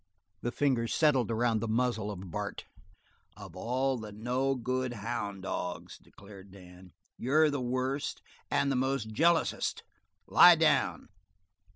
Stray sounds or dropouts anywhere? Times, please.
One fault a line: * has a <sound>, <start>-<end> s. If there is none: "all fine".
all fine